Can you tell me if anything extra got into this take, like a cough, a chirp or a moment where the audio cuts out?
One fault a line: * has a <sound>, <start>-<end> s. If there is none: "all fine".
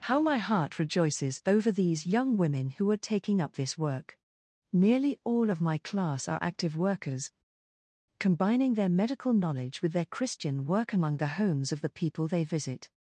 all fine